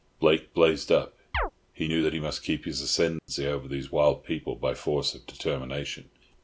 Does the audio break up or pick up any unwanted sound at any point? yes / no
yes